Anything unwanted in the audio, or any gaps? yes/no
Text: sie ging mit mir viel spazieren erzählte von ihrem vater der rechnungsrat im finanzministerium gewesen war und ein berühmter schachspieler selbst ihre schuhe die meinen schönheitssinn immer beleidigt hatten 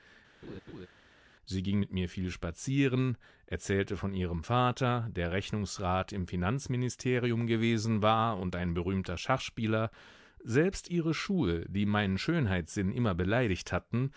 yes